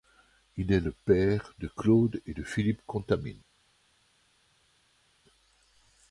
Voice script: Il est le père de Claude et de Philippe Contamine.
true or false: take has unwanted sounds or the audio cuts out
false